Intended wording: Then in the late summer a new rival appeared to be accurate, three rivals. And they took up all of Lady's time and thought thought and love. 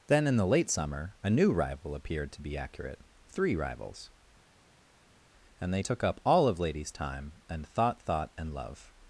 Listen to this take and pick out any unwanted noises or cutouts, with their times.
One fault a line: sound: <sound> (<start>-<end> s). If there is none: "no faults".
no faults